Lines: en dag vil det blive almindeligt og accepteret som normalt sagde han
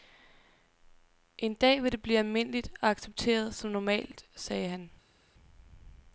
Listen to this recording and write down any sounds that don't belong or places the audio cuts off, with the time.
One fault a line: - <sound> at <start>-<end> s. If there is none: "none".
none